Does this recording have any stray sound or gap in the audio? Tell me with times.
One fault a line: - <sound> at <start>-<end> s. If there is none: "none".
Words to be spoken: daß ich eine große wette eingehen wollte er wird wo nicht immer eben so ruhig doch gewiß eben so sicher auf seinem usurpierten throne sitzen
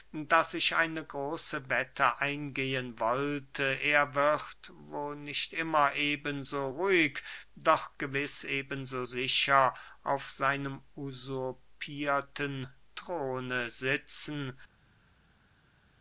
none